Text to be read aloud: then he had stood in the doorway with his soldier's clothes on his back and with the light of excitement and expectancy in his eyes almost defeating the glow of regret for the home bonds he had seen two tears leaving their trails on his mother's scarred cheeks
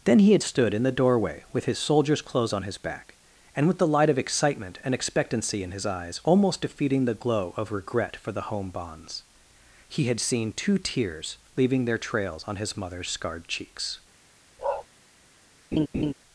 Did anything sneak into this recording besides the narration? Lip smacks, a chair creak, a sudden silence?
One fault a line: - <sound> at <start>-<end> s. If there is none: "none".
- bark at 14.6-14.9 s
- laugh at 15.7-16.1 s